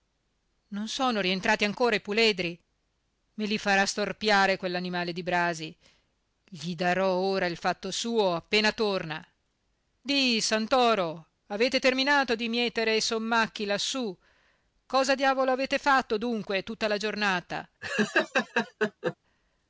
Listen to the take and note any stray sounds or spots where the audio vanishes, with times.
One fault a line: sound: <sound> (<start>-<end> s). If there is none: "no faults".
sound: laugh (17.8-19.2 s)